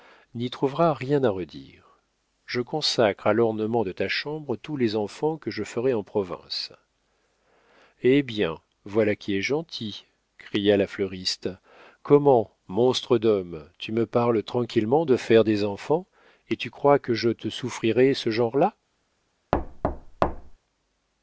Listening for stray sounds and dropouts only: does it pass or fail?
fail